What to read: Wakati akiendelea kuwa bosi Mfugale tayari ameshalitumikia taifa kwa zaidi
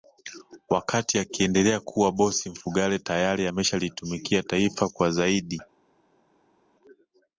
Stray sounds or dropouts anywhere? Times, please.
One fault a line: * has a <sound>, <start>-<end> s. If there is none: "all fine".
all fine